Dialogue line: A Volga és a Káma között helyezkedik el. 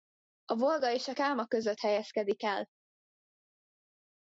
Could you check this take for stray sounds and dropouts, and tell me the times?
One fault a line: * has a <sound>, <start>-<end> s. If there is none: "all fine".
all fine